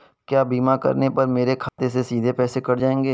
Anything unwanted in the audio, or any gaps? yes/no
yes